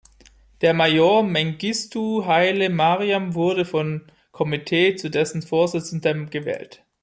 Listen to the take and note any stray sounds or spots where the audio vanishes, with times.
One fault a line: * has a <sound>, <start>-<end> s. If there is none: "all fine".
all fine